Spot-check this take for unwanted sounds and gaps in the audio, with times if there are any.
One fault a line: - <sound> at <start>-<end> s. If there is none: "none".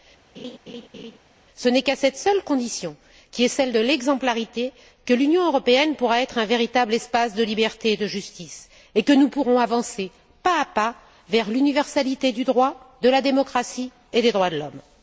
- laugh at 0.3-1.2 s